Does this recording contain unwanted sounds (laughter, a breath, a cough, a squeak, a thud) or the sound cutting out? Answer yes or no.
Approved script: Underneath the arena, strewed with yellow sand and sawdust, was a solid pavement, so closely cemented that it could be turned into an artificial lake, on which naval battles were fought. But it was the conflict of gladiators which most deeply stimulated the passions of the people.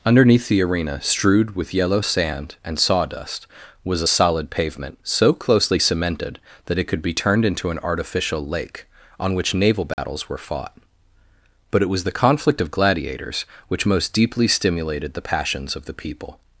yes